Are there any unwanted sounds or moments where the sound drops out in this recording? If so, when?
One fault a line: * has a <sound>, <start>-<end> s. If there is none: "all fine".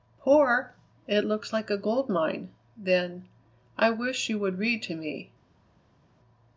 all fine